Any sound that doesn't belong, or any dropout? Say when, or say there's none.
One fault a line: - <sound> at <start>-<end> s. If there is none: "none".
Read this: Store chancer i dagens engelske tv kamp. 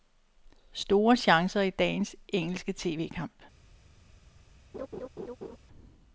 - laugh at 4.7-5.6 s